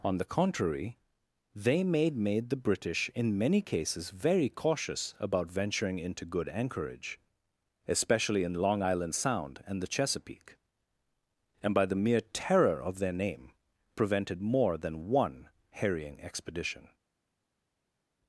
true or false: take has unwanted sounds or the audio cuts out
false